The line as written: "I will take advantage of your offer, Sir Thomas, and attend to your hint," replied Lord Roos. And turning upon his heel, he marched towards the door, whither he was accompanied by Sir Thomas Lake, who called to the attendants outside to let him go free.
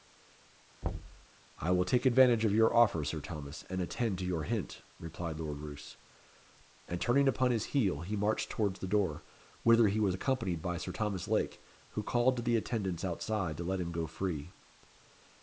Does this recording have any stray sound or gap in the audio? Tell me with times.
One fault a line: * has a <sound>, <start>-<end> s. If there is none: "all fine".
* has a thud, 0.8-1.3 s